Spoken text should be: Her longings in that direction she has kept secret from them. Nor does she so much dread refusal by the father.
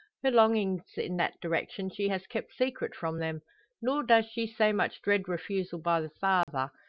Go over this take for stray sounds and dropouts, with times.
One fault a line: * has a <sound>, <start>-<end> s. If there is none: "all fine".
* has a dropout, 6.4-6.5 s